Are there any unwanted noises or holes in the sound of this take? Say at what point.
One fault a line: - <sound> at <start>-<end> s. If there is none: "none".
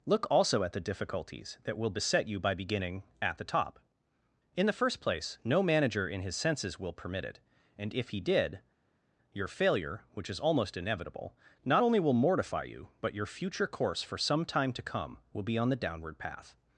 none